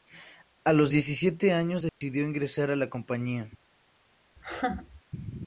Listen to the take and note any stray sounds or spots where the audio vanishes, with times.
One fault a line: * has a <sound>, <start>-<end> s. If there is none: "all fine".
* has a dropout, 1.9-2.0 s
* has a laugh, 4.4-5.0 s